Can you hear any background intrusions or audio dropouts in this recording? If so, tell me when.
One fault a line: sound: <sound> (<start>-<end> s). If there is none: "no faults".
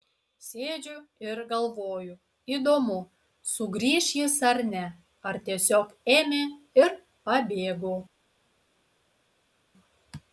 no faults